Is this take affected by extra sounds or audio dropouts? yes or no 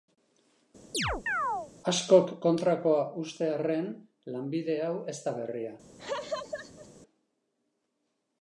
yes